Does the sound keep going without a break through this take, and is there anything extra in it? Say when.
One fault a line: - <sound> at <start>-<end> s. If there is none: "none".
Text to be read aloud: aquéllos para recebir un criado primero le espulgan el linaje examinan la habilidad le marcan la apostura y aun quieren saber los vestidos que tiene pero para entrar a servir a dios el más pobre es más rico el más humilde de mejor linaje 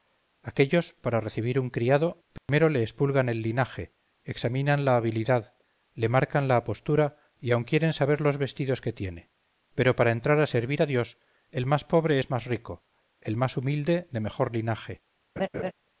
- dropout at 2.4-2.5 s
- laugh at 15.4-15.7 s